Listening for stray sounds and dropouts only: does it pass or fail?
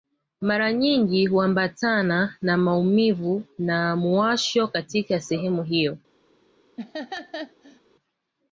fail